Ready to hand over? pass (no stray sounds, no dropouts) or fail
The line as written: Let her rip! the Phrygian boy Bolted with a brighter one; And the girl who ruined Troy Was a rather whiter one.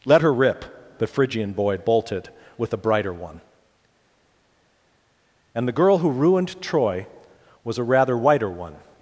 pass